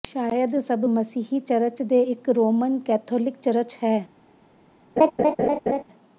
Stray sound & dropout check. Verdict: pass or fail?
fail